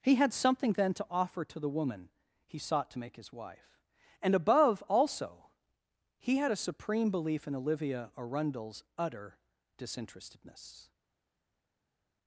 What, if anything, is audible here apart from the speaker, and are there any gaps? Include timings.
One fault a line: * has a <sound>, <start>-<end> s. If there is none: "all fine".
all fine